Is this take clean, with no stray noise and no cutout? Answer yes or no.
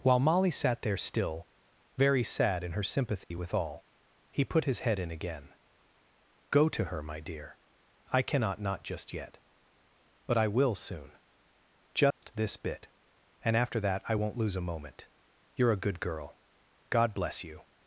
no